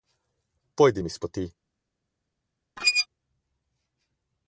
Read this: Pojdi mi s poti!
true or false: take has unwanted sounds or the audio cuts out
true